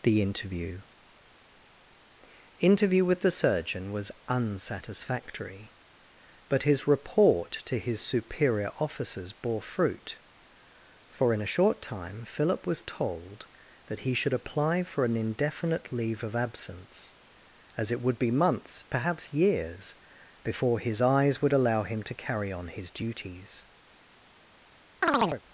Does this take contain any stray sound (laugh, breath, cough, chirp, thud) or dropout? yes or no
yes